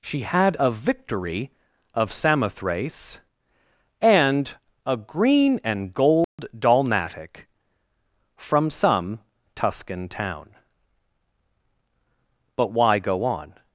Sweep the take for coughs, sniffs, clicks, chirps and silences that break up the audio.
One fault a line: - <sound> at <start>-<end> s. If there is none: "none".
- dropout at 6.2-6.4 s